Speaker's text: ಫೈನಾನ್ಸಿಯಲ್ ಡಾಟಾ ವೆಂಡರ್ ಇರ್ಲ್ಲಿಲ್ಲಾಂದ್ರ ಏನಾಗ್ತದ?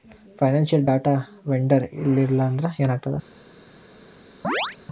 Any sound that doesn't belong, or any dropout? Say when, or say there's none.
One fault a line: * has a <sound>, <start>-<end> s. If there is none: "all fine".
* has a chirp, 4.4-4.8 s